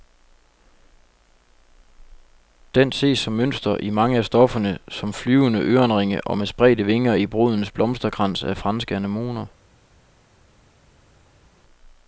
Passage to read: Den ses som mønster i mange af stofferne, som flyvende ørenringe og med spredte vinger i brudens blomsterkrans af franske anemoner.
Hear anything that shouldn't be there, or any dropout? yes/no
no